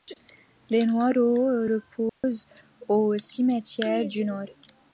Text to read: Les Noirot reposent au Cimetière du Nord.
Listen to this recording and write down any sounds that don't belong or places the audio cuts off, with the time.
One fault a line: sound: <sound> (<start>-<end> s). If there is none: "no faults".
sound: dropout (2.1-2.2 s)